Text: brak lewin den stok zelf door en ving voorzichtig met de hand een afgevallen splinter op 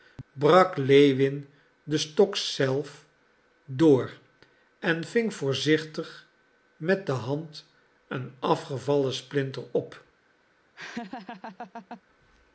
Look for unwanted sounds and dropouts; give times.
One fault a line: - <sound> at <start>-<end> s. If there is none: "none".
- laugh at 10.8-12.0 s